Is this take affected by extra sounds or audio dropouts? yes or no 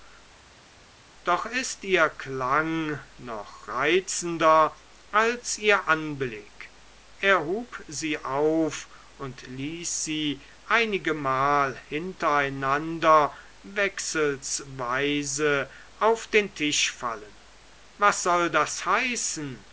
no